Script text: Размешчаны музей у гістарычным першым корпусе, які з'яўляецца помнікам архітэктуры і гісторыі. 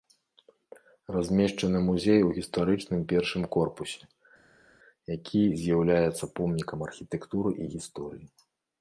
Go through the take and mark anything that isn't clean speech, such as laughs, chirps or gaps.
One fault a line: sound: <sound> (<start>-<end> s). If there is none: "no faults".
no faults